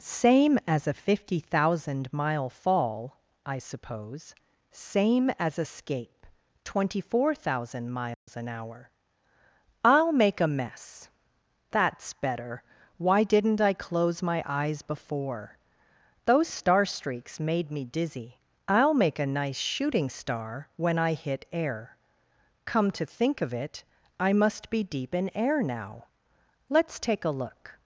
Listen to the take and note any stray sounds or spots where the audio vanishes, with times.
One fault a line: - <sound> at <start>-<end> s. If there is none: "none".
- dropout at 8.1-8.3 s